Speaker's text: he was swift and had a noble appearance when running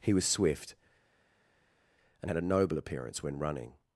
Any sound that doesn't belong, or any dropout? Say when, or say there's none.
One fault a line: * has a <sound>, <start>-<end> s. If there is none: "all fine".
all fine